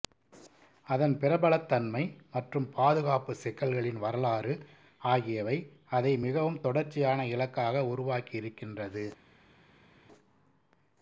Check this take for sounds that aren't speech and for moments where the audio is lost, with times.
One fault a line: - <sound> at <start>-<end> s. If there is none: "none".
none